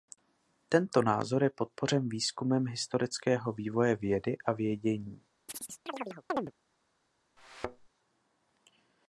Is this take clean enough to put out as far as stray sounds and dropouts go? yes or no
no